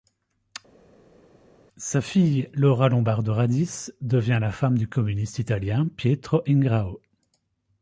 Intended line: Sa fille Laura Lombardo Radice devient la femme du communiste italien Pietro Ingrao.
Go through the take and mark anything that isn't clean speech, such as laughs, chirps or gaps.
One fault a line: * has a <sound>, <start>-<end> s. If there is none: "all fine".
all fine